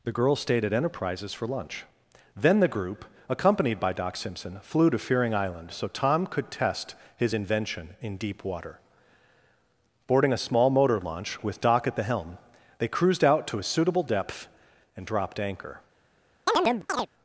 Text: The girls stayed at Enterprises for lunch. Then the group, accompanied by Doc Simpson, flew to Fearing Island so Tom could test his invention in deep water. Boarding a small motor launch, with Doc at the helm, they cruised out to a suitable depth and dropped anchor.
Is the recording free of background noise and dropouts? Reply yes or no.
no